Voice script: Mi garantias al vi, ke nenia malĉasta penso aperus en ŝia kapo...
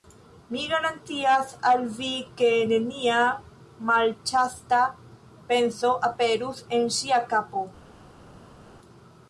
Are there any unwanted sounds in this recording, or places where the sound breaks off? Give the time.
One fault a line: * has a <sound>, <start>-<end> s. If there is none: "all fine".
all fine